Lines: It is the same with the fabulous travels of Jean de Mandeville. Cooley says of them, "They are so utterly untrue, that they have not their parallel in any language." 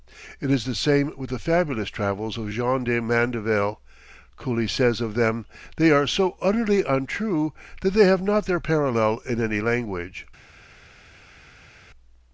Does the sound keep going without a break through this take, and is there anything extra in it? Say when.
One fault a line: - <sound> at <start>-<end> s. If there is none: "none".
none